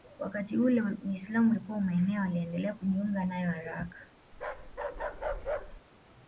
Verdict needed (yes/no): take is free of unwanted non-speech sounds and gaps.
no